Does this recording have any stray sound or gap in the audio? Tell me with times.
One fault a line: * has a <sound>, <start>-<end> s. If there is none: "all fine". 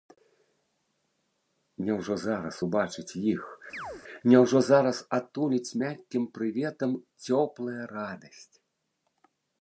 * has a chirp, 3.7-4.0 s